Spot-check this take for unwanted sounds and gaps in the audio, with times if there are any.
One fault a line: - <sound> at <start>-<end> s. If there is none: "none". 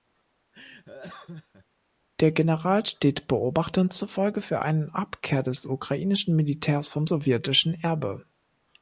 - laugh at 0.5-1.7 s